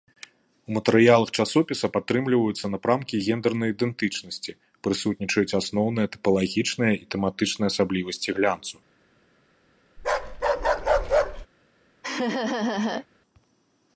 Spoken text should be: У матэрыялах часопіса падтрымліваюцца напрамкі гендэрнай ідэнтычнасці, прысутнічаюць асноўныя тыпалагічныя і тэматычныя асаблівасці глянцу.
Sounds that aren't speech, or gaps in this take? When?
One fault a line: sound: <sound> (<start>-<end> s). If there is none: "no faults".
sound: bark (10.0-11.5 s)
sound: laugh (12.0-13.1 s)